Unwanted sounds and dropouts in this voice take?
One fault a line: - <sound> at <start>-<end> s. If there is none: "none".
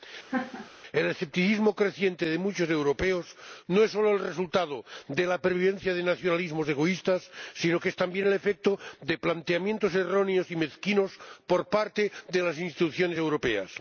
- laugh at 0.3-0.7 s